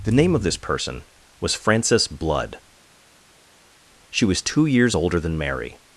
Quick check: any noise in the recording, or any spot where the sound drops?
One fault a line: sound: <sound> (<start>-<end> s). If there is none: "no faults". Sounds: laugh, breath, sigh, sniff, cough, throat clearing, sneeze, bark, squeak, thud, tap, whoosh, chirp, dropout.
no faults